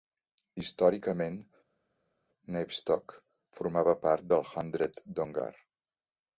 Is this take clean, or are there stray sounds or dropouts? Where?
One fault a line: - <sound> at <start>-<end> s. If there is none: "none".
none